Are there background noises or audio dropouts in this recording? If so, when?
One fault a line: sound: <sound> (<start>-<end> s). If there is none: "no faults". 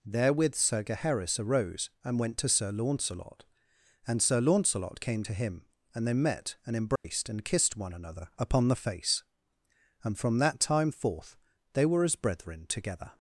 sound: dropout (7.0-7.0 s)